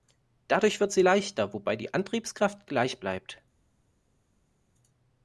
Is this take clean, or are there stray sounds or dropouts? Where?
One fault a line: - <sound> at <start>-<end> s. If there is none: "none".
none